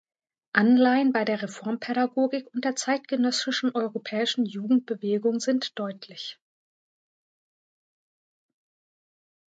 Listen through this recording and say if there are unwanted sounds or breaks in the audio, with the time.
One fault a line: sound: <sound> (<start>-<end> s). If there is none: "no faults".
no faults